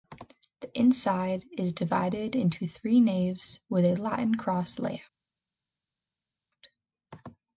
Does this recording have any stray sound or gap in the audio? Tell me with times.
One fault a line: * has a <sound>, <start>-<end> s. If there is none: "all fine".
all fine